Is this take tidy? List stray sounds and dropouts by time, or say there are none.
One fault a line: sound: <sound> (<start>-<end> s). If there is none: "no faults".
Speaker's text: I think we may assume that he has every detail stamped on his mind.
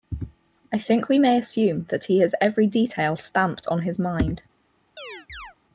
sound: chirp (5.0-5.6 s)